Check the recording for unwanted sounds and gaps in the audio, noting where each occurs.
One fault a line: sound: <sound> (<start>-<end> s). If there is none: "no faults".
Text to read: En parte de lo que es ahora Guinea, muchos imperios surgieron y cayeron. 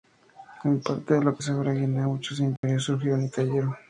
sound: dropout (2.6-2.6 s)